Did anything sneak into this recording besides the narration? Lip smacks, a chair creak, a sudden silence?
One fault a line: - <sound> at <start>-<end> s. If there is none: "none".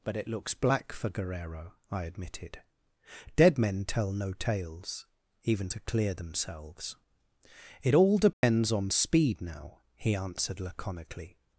- dropout at 8.3-8.4 s